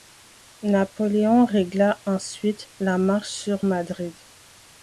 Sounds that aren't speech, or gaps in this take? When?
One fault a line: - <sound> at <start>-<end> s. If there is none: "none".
none